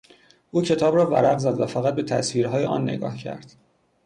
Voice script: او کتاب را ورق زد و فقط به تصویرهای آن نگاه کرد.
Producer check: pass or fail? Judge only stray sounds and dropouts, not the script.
pass